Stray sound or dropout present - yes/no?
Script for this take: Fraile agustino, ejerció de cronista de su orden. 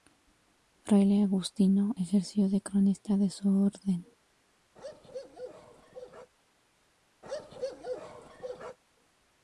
yes